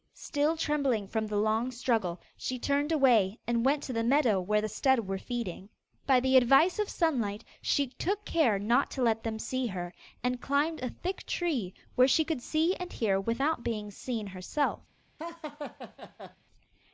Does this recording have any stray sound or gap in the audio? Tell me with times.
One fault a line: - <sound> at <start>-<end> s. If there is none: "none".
- laugh at 15.2-16.4 s